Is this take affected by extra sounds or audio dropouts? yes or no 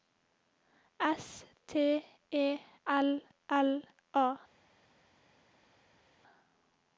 no